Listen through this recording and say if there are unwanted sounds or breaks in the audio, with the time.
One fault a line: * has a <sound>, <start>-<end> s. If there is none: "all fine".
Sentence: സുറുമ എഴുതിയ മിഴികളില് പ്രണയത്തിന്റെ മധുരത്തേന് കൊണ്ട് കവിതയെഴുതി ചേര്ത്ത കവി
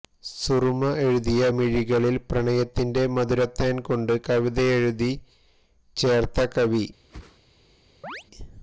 * has a whoosh, 7.1-7.4 s
* has a chirp, 8.0-8.2 s